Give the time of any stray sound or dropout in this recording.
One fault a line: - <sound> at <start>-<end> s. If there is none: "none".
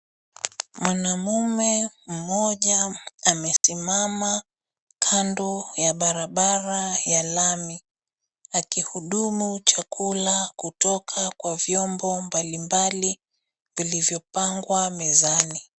- dropout at 3.6-3.6 s